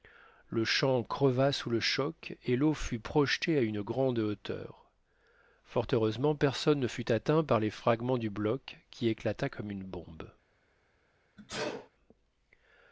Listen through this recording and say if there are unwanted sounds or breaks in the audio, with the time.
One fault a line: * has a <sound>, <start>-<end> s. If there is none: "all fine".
* has a sneeze, 11.4-11.9 s